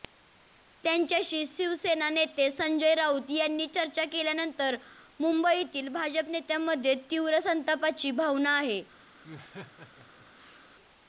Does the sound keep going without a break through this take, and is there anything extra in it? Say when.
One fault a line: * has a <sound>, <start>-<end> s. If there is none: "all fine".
* has a laugh, 9.2-10.7 s